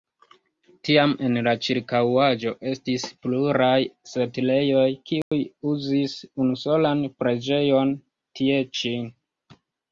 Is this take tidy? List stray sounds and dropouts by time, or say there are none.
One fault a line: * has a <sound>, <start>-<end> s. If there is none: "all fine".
* has a dropout, 5.2-5.3 s